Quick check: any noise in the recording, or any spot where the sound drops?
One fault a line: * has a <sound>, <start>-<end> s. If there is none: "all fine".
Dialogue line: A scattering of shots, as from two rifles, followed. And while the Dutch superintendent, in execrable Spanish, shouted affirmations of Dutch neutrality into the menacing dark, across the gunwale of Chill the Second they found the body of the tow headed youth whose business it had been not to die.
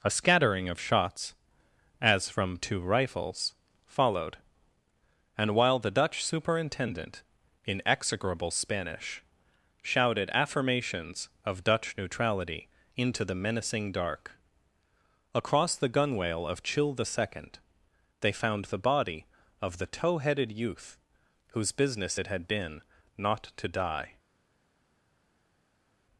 all fine